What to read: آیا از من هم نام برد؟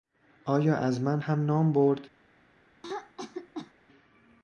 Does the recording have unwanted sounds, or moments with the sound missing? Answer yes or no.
yes